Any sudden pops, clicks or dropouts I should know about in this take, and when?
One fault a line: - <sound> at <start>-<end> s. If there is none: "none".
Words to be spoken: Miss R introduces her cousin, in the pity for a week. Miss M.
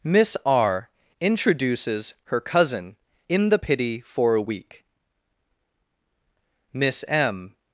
none